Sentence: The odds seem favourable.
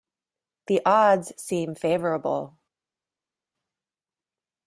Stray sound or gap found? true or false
false